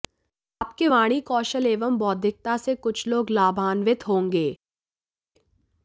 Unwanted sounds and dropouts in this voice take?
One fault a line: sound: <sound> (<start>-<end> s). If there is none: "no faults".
no faults